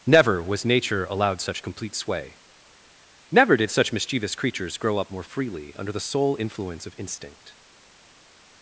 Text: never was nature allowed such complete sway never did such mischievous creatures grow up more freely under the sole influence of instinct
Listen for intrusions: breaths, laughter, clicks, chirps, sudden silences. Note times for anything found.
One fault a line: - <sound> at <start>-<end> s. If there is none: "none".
none